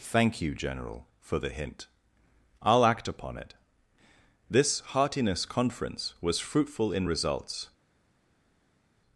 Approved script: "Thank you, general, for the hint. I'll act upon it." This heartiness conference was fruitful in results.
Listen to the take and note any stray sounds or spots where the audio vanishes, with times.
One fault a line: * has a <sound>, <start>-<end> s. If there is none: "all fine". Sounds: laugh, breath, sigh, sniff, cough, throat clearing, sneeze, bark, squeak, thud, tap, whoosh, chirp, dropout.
all fine